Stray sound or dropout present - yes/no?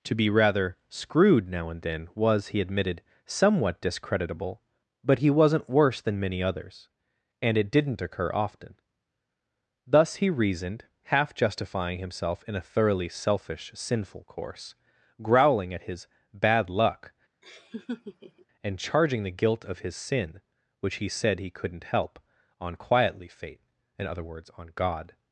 yes